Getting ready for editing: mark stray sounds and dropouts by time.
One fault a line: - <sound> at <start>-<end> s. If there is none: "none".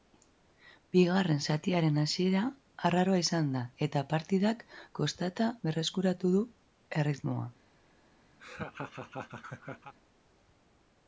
- laugh at 8.4-9.9 s